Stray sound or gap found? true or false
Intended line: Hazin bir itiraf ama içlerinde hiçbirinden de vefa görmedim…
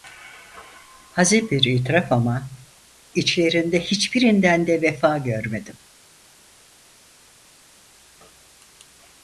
false